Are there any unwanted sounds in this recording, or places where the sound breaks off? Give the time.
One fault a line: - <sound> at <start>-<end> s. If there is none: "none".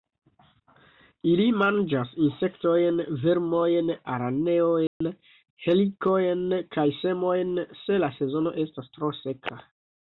- dropout at 4.9-5.0 s